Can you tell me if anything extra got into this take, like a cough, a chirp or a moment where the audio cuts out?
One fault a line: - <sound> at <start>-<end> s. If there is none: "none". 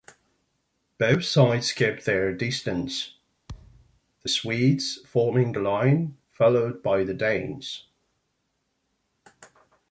- thud at 3.5-4.0 s